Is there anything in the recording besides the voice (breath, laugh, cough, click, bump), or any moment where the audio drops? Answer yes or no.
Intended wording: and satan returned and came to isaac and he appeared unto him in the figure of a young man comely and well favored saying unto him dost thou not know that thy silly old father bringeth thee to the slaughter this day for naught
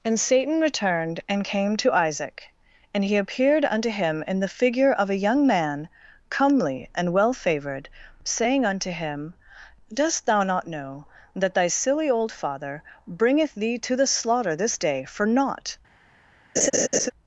yes